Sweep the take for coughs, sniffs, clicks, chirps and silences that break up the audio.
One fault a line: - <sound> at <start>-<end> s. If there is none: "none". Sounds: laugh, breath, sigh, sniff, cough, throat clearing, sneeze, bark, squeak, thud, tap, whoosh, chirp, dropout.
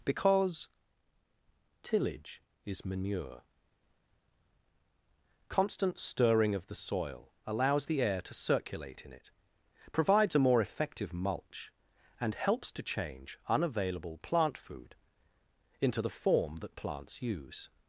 none